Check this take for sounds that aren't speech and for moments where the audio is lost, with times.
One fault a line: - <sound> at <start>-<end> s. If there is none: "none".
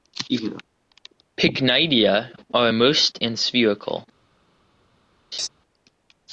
- laugh at 5.3-5.5 s